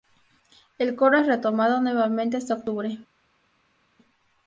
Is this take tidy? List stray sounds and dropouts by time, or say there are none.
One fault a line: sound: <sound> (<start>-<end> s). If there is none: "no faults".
no faults